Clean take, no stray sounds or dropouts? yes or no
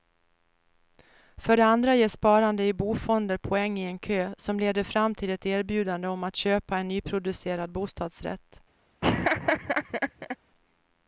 no